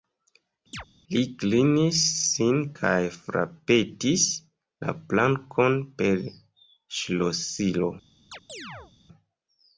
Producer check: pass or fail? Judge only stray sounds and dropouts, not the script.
fail